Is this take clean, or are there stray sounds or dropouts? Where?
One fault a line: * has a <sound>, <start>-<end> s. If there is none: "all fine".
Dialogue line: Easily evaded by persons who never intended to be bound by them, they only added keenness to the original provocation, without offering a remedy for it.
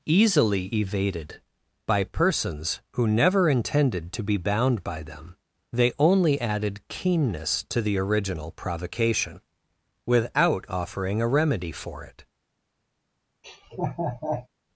* has a laugh, 13.4-14.5 s